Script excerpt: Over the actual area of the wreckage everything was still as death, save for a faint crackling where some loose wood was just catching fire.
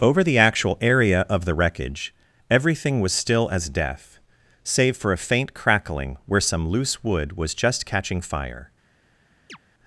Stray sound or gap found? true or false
true